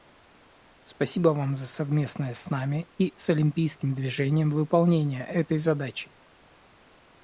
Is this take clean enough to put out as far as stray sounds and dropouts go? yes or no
yes